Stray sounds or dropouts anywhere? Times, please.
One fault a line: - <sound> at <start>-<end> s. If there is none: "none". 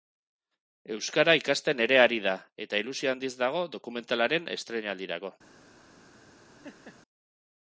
- laugh at 6.6-7.0 s